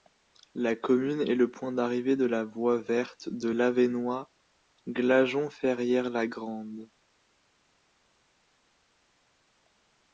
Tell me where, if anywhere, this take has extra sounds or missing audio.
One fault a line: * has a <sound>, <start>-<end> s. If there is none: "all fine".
all fine